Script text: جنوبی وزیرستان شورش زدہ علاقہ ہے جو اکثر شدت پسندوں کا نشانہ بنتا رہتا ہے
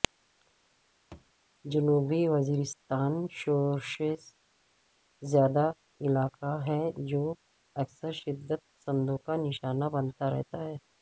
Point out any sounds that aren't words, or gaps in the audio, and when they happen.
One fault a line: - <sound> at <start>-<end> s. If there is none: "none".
- thud at 1.1-1.3 s